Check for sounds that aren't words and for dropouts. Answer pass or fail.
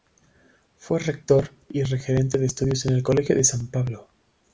pass